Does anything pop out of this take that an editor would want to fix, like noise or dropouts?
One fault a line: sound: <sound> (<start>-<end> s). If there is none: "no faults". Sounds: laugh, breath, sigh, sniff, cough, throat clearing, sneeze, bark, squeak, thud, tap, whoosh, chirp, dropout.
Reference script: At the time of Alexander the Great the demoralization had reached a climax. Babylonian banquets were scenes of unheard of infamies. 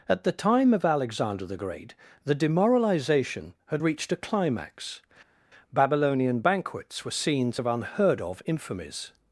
no faults